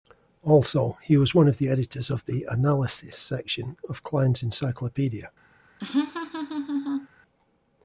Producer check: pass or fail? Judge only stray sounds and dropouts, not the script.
fail